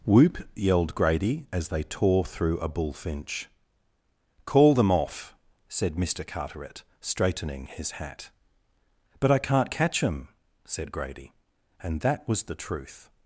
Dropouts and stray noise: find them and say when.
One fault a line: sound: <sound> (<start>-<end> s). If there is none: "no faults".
no faults